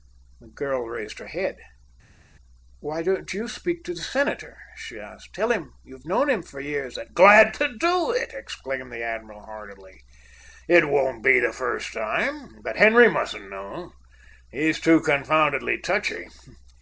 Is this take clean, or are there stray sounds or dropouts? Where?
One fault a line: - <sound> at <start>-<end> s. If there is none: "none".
none